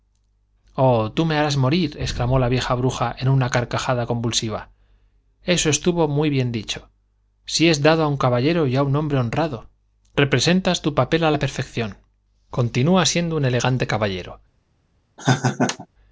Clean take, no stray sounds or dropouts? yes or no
no